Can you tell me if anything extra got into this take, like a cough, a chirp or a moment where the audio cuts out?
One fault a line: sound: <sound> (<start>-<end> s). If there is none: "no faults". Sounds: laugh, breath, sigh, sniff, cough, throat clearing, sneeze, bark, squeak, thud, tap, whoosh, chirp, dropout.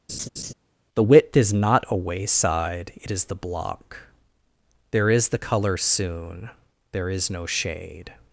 sound: laugh (0.1-0.5 s)